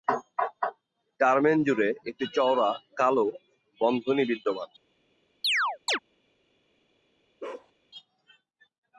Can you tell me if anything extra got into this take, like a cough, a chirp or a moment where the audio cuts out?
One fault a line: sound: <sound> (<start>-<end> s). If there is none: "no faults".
sound: chirp (5.4-6.0 s)
sound: bark (7.4-7.7 s)